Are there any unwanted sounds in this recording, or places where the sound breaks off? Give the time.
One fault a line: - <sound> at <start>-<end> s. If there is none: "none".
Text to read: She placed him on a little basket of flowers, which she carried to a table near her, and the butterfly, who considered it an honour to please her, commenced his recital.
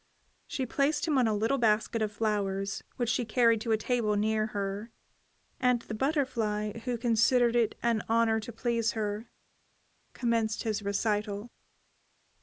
none